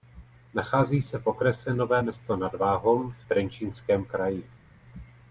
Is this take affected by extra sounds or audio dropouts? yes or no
no